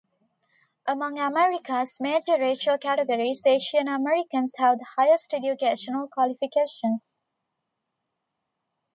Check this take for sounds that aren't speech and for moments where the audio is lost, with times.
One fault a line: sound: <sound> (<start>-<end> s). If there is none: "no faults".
no faults